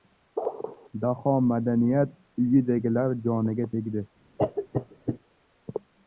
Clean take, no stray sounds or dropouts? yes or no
no